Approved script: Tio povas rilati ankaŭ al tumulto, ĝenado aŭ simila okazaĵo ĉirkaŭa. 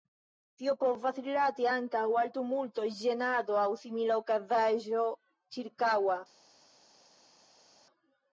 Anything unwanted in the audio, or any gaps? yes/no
no